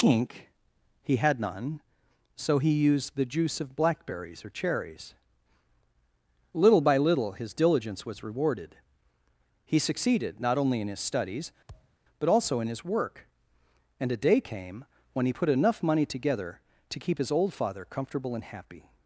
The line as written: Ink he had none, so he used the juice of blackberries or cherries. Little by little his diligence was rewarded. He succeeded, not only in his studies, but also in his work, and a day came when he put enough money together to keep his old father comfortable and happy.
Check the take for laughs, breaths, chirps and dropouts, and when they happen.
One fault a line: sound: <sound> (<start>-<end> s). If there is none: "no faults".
sound: thud (11.7-12.0 s)